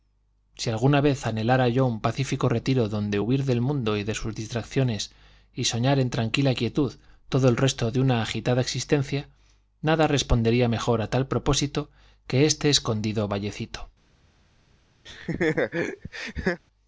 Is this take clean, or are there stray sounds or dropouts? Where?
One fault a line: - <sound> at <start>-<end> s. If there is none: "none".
- laugh at 15.1-16.6 s